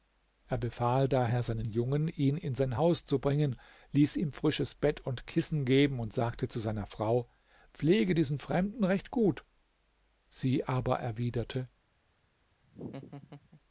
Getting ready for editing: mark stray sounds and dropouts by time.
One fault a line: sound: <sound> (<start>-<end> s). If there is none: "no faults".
sound: laugh (12.6-13.6 s)